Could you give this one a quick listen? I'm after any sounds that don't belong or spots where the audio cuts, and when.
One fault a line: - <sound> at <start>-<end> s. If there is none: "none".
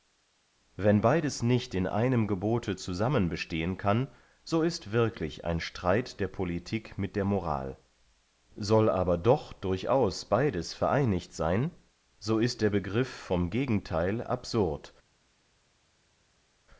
none